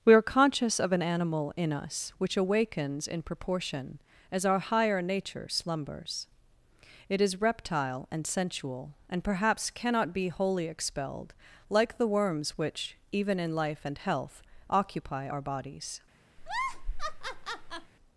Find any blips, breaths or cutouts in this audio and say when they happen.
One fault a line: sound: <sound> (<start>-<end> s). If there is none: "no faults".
sound: laugh (16.4-17.9 s)